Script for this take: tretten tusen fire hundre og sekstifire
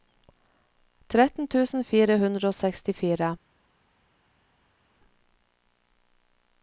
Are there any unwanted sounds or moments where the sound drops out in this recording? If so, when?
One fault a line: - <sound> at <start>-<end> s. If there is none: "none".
none